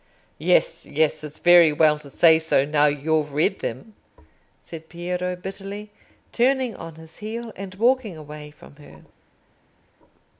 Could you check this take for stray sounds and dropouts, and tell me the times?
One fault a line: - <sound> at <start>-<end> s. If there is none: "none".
none